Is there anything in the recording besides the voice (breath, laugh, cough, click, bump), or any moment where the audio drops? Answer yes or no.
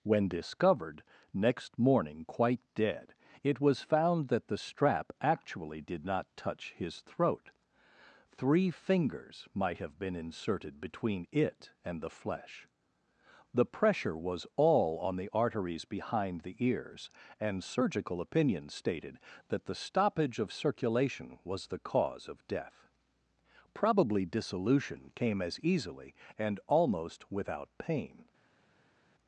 no